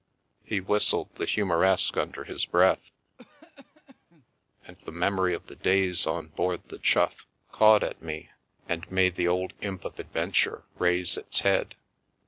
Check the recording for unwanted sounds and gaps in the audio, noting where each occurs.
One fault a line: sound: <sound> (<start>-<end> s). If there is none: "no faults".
sound: cough (3.2-4.3 s)